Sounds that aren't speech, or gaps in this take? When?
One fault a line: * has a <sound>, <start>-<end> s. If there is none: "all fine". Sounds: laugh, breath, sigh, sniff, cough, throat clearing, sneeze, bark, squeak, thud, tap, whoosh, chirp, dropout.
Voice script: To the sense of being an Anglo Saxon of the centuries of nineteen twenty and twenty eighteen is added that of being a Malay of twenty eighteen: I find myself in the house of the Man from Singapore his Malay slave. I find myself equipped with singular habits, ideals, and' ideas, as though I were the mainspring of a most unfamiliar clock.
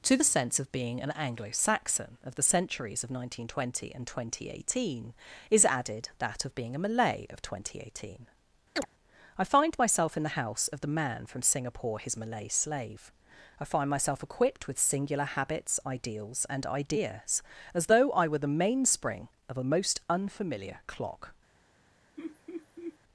* has a chirp, 8.8-8.9 s
* has a laugh, 22.2-23.0 s